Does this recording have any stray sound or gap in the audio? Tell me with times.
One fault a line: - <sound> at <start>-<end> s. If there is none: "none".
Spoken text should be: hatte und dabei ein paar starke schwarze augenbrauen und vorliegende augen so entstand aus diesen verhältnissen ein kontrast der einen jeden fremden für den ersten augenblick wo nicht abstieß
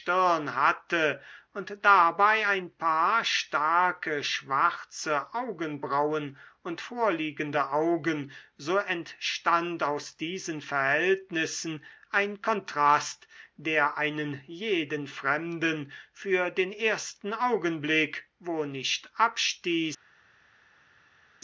none